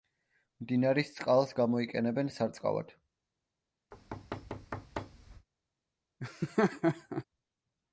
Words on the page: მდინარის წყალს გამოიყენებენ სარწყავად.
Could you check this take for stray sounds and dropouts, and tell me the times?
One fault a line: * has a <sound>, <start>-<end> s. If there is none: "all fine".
* has a thud, 3.9-5.5 s
* has a laugh, 6.2-7.2 s